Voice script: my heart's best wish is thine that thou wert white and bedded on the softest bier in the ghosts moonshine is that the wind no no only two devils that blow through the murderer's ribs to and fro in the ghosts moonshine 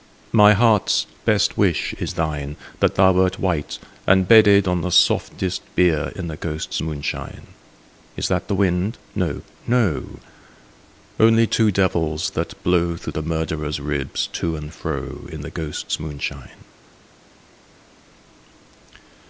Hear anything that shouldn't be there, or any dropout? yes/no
no